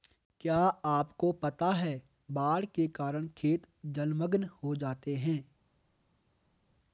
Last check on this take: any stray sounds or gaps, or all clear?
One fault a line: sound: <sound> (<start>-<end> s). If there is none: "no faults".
no faults